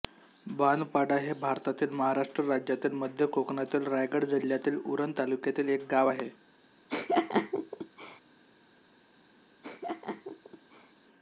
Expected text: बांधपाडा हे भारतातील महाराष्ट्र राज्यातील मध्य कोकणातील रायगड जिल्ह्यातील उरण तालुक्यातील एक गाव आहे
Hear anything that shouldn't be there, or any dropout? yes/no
yes